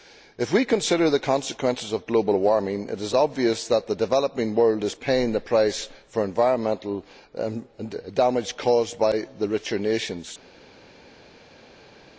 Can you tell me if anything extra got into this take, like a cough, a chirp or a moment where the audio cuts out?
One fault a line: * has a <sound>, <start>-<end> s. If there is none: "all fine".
all fine